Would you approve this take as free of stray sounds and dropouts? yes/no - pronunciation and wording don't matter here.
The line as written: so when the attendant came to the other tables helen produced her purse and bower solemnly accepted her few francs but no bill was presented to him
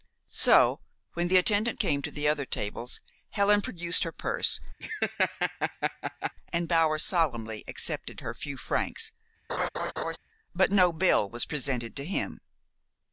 no